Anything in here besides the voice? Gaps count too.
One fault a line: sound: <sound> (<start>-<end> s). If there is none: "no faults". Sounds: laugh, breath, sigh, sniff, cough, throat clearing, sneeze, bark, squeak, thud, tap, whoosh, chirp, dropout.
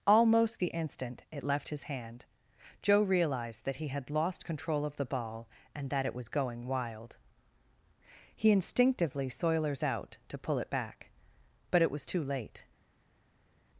no faults